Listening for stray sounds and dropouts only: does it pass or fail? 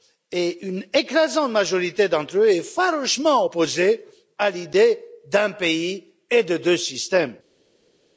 pass